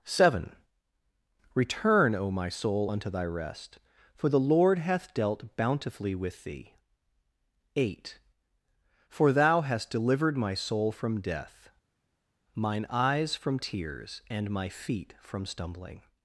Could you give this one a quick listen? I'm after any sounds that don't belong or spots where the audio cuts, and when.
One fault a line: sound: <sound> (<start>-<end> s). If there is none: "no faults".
no faults